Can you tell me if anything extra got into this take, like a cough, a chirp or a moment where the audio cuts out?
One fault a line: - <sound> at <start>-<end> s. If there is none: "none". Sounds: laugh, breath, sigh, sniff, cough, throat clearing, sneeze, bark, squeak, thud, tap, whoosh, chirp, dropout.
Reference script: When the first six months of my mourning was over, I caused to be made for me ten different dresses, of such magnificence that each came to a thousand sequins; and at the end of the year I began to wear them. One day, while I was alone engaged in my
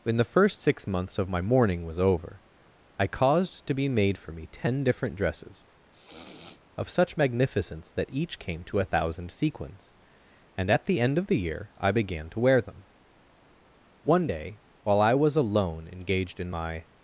- sniff at 5.9-6.6 s